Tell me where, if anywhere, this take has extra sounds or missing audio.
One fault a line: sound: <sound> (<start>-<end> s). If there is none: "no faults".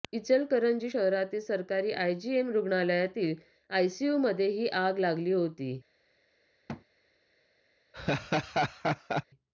sound: thud (6.7-6.8 s)
sound: laugh (7.9-9.2 s)